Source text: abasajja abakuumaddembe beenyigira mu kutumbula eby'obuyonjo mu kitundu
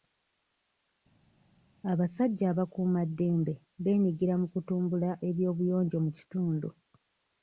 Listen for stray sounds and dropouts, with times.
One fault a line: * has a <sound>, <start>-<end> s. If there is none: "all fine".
all fine